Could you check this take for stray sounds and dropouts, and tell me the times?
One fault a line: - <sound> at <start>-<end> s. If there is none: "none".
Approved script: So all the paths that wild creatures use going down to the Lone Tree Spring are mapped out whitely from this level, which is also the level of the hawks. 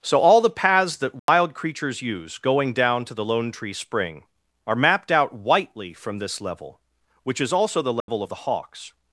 - dropout at 1.2-1.3 s
- dropout at 8.0-8.1 s